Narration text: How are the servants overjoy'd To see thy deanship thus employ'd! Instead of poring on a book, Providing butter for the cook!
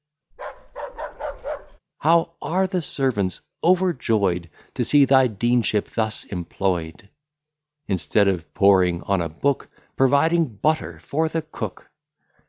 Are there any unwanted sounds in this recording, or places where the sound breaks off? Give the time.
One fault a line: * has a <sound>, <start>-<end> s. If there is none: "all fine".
* has a bark, 0.3-1.8 s